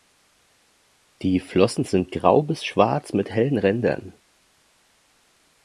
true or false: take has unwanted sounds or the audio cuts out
false